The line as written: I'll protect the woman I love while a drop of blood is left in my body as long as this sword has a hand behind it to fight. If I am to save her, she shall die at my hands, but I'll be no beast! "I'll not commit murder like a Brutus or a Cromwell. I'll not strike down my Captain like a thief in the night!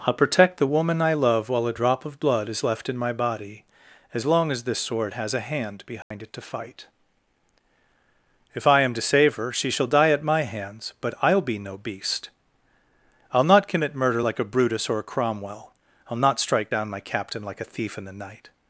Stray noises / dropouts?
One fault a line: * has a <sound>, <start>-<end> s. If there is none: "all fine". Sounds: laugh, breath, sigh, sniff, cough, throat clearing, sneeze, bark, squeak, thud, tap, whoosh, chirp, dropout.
* has a dropout, 6.0-6.1 s